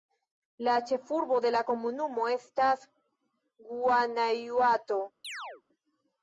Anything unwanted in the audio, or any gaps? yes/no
yes